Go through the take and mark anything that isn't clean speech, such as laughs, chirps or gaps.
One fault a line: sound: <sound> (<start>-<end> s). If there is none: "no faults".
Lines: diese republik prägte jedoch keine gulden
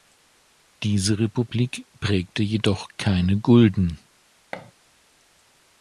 sound: thud (4.5-4.7 s)